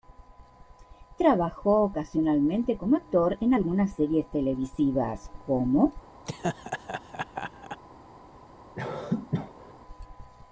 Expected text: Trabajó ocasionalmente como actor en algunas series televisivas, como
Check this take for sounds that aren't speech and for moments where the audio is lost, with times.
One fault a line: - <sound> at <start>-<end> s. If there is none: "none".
- laugh at 6.3-7.8 s
- cough at 8.7-9.7 s